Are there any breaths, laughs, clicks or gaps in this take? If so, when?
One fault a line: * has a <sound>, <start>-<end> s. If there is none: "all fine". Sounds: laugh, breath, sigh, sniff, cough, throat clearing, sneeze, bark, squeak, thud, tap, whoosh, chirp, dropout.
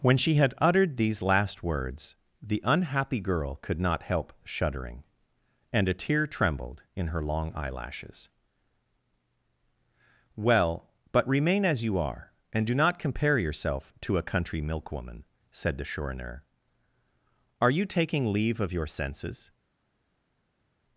all fine